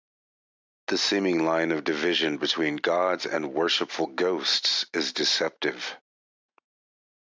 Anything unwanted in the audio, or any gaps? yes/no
no